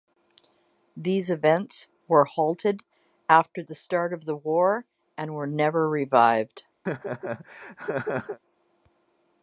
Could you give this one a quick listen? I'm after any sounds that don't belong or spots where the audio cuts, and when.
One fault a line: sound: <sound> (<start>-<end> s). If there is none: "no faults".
sound: laugh (6.9-8.4 s)